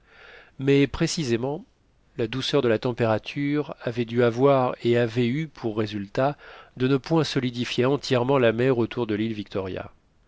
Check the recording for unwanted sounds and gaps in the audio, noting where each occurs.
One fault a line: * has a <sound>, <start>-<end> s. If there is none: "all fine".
all fine